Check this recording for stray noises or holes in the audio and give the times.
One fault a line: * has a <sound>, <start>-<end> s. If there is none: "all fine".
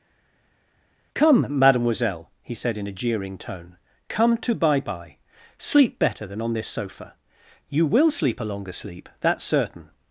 all fine